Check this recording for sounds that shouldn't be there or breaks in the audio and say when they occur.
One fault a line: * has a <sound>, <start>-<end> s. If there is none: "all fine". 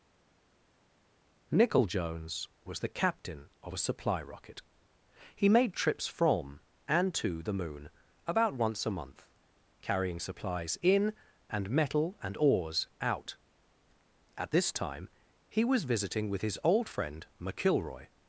all fine